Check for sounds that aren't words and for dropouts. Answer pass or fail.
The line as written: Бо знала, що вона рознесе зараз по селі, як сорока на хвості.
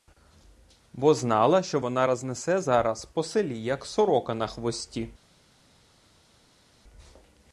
pass